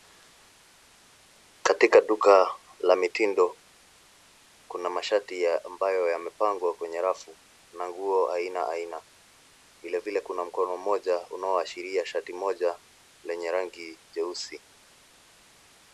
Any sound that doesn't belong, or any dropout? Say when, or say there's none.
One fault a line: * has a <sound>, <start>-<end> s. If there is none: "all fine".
all fine